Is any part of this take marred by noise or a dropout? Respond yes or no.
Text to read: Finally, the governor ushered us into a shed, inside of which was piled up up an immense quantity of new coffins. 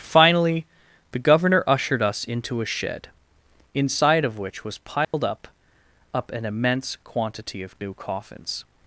yes